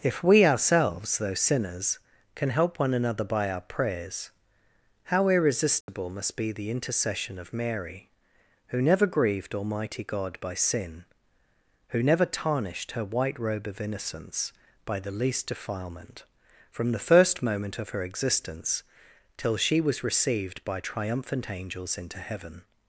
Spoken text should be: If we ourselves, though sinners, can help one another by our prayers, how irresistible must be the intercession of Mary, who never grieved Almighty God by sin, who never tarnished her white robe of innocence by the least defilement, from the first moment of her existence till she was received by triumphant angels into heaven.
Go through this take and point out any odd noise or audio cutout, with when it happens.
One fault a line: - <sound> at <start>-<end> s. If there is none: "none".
- dropout at 5.8-5.9 s